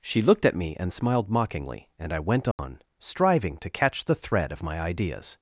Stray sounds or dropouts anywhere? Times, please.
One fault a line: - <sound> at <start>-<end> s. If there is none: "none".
- dropout at 2.5-2.6 s